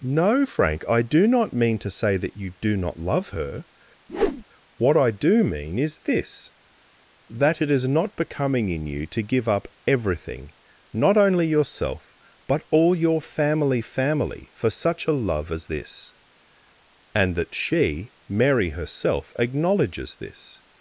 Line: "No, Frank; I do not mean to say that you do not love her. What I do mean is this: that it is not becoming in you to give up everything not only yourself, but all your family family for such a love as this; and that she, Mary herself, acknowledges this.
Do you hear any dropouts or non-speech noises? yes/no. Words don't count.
yes